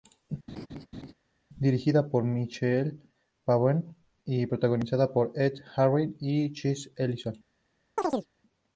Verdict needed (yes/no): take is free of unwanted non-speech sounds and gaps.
no